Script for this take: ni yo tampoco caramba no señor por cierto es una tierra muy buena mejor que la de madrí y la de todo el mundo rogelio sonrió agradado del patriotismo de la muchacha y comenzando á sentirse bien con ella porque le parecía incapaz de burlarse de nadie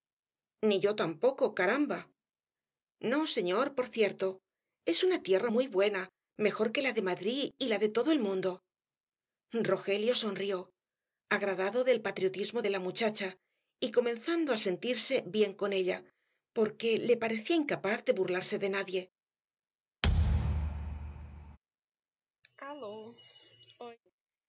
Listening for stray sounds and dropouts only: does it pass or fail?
fail